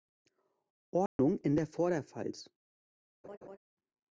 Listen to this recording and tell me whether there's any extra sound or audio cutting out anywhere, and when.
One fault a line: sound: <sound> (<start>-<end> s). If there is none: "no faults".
sound: dropout (1.1-1.2 s)
sound: laugh (3.2-3.6 s)